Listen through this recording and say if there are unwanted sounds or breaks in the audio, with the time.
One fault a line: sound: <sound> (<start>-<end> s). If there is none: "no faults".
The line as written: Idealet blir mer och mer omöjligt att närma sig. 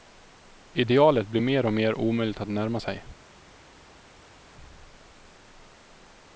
no faults